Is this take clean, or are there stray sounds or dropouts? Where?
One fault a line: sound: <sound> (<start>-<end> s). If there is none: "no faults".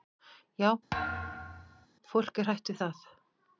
sound: thud (0.9-1.9 s)